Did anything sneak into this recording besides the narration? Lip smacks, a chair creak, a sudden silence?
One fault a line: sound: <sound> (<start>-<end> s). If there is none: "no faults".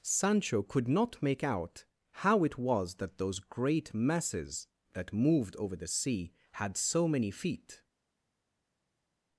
no faults